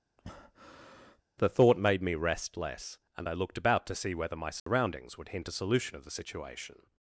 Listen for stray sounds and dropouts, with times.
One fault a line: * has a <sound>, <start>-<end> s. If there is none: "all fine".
* has a breath, 0.2-1.2 s
* has a dropout, 4.6-4.7 s